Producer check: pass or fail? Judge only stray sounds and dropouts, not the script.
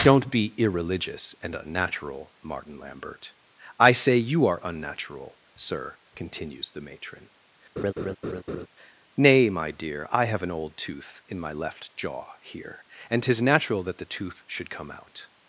fail